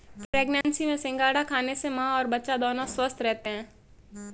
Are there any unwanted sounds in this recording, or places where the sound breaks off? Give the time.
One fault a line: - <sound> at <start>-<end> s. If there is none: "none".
- dropout at 0.6-0.6 s